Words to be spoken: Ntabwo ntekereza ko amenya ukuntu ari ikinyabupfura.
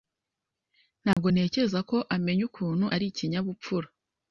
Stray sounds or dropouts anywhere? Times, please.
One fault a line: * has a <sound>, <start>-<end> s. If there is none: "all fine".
* has a dropout, 1.1-1.2 s